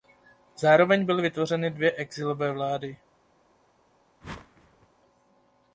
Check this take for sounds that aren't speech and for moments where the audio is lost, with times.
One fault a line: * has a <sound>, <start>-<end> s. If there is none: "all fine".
* has a whoosh, 4.2-4.9 s